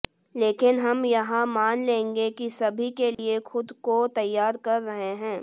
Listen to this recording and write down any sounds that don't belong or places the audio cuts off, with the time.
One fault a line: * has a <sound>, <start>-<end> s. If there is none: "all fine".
* has a dropout, 3.1-3.2 s